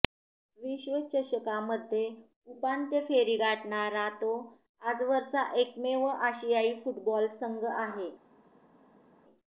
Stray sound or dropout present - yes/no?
no